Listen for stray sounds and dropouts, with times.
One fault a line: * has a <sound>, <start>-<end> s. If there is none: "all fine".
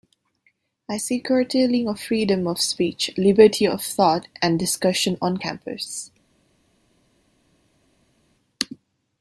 all fine